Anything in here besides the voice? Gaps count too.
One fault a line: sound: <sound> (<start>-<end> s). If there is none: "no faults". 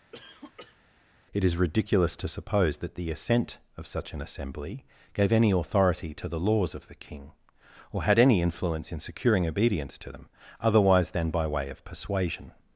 sound: cough (0.1-0.8 s)